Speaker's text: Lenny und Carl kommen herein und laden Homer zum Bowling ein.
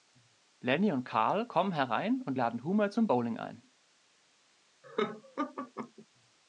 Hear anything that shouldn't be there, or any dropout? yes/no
yes